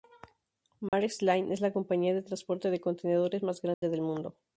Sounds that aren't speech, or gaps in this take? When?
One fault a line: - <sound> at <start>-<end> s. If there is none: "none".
- dropout at 0.9-0.9 s
- dropout at 3.7-3.8 s